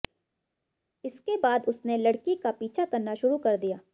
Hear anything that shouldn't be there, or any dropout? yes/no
no